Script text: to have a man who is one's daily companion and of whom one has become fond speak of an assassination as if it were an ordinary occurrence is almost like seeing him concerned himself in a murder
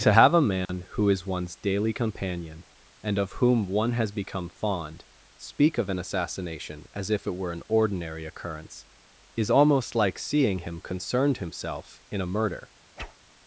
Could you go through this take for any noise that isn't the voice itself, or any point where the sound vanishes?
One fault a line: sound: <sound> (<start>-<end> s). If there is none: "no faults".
sound: dropout (0.7-0.7 s)
sound: whoosh (13.0-13.2 s)